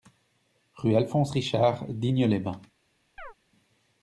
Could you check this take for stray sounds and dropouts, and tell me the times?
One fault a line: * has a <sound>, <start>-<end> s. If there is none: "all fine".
* has a chirp, 3.2-3.3 s